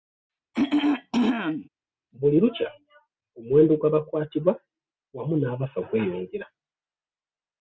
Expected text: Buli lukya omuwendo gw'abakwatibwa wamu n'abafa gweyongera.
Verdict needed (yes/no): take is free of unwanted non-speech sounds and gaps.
no